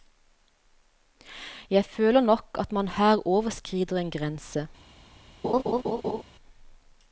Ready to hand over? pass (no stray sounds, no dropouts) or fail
fail